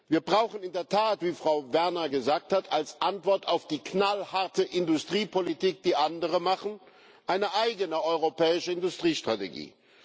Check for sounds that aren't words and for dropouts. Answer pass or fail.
pass